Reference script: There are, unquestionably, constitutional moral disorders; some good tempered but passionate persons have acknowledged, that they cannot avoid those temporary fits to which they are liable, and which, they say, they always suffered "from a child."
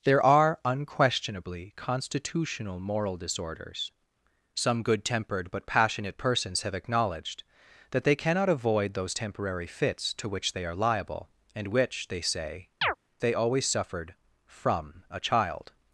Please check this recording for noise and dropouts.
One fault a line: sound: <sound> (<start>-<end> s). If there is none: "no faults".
sound: chirp (12.8-13.0 s)